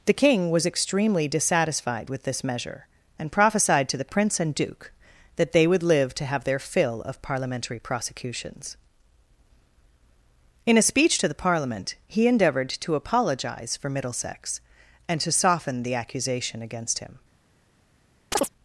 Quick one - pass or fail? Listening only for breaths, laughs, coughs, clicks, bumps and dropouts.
fail